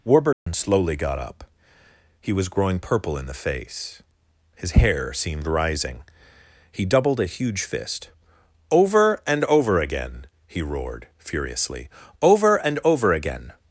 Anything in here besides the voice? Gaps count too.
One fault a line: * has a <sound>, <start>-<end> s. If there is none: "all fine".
* has a dropout, 0.3-0.5 s